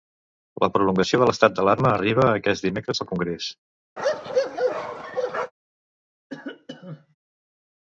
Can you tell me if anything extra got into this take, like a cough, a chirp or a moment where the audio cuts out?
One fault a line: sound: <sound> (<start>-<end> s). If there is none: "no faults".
sound: bark (4.0-5.5 s)
sound: cough (6.3-7.1 s)